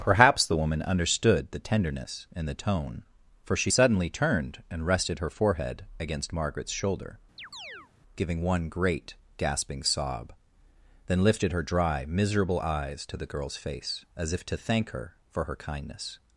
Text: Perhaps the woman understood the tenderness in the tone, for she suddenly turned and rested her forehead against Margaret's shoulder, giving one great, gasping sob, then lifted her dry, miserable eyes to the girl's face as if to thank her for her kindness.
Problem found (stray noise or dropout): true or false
true